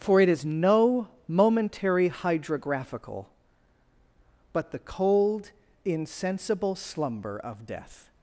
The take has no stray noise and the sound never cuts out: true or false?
true